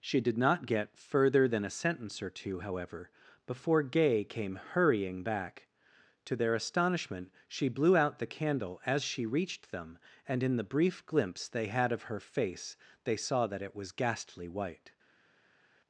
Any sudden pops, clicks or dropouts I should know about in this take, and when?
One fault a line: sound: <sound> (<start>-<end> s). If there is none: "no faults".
no faults